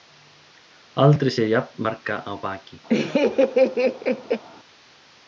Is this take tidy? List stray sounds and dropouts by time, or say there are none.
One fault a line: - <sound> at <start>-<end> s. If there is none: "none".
- laugh at 2.9-4.4 s